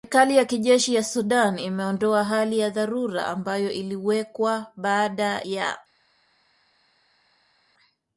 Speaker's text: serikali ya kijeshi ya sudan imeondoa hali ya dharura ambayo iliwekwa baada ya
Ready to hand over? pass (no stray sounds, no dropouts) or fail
pass